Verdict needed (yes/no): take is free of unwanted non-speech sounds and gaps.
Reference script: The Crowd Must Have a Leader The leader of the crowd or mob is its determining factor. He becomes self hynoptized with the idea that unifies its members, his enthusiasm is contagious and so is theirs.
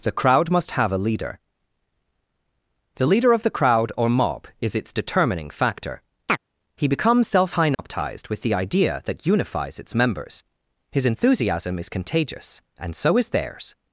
no